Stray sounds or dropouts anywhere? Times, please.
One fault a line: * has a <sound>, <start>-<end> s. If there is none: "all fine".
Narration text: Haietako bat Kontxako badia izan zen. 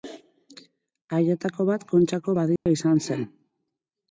* has a dropout, 2.6-2.7 s